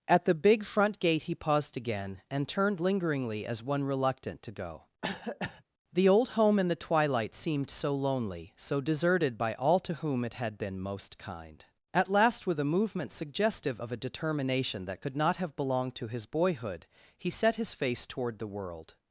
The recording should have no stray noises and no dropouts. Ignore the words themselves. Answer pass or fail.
fail